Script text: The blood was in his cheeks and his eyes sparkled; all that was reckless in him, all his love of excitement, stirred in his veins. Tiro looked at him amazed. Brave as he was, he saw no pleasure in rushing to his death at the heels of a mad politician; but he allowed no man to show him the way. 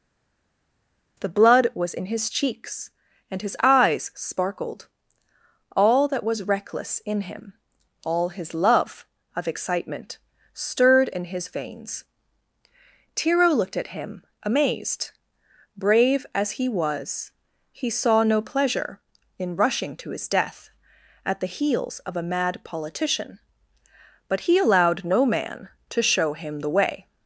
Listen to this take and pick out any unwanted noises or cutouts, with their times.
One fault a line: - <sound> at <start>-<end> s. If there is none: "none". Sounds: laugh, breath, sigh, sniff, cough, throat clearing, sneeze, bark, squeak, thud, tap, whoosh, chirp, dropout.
none